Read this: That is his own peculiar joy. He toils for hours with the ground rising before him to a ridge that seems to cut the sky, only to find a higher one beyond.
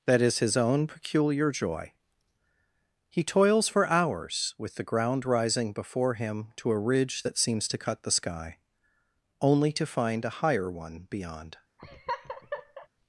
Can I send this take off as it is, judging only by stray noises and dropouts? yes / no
no